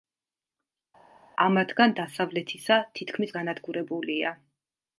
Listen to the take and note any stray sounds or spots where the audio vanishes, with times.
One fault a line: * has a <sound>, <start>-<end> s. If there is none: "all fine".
all fine